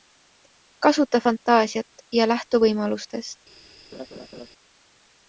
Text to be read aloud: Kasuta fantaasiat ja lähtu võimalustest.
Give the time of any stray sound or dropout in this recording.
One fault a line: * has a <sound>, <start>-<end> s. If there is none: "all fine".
* has a laugh, 3.9-4.5 s